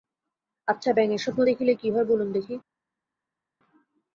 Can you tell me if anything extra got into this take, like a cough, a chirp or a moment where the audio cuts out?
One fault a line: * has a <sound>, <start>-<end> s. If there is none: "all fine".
all fine